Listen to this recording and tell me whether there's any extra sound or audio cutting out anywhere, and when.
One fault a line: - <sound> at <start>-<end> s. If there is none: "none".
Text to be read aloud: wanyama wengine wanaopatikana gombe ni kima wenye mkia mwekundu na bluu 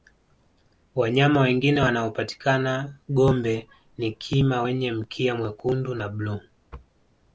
none